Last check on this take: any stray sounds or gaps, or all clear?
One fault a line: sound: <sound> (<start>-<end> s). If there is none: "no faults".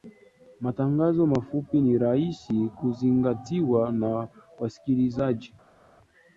no faults